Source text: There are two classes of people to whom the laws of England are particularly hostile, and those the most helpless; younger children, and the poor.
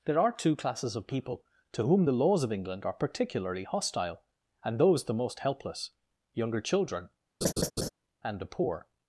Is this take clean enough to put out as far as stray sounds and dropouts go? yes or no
no